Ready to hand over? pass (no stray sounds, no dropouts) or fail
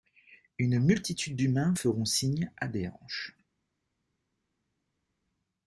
pass